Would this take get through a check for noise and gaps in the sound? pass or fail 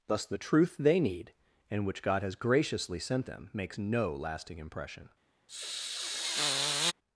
fail